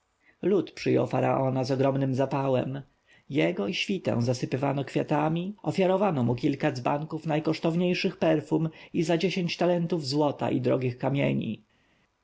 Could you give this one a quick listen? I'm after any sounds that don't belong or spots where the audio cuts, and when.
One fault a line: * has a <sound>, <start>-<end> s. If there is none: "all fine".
all fine